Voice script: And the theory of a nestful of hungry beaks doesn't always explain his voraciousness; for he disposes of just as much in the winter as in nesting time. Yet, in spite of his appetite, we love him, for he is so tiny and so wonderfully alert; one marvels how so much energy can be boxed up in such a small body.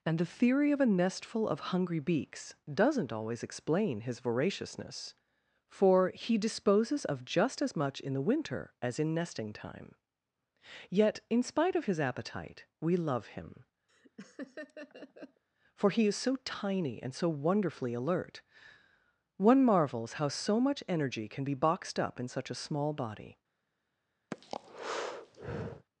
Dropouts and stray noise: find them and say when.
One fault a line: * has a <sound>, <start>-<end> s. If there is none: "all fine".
* has a laugh, 13.9-15.4 s
* has a breath, 24.3-25.9 s